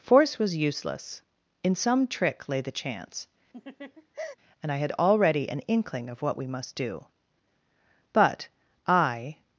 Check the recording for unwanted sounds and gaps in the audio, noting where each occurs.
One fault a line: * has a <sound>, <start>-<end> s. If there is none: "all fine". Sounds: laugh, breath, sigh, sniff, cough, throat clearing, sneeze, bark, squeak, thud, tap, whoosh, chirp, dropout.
* has a laugh, 3.5-4.4 s